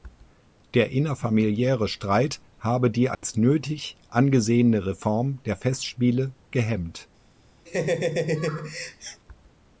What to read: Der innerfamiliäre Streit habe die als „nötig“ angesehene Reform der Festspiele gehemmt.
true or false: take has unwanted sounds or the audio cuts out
true